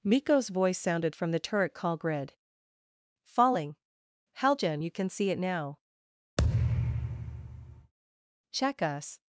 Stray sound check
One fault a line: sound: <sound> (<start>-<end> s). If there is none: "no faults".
sound: thud (6.4-7.9 s)